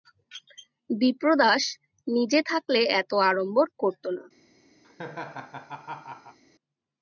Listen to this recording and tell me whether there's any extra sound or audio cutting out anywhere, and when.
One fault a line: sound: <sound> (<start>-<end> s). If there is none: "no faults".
sound: laugh (4.8-6.4 s)